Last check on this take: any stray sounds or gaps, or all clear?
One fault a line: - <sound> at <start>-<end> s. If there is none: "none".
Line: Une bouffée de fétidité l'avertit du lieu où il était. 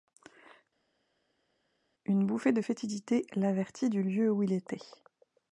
none